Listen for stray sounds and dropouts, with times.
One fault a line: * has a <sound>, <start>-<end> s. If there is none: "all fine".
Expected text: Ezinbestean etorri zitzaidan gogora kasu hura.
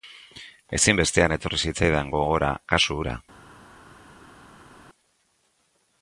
all fine